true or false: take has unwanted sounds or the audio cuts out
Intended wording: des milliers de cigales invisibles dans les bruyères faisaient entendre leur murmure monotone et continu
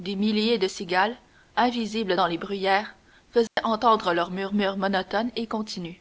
true